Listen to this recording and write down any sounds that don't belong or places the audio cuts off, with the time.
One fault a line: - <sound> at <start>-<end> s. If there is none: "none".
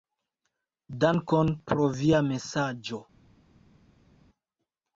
none